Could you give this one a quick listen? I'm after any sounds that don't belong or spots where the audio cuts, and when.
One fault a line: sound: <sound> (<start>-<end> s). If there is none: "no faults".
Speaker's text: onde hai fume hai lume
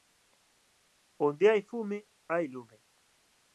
no faults